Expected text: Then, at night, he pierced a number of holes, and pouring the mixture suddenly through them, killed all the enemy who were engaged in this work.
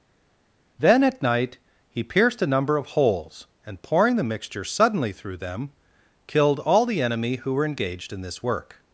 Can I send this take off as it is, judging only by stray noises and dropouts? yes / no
yes